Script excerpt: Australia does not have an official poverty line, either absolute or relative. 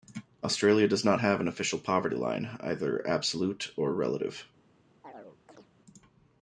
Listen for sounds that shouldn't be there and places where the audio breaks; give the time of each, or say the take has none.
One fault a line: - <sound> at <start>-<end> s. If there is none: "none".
- chirp at 5.0-5.7 s